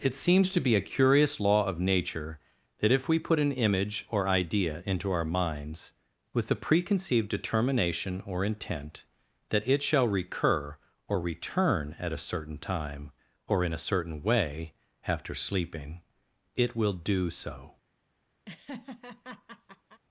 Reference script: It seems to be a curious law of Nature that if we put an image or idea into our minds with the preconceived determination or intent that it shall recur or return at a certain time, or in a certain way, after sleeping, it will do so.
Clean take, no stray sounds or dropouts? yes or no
no